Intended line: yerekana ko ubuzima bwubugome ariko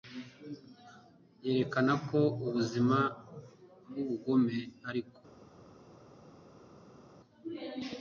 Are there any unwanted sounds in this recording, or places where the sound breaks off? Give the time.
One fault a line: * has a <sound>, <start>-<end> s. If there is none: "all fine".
all fine